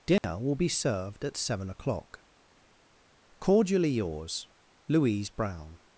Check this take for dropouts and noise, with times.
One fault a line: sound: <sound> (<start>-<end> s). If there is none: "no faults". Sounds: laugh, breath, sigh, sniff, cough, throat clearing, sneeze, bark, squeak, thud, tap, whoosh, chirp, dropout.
sound: dropout (0.2-0.2 s)